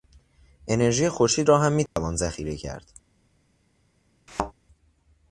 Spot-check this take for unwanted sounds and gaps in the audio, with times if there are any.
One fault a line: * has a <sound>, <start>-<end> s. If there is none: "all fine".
* has a dropout, 1.9-2.0 s
* has a thud, 4.3-4.5 s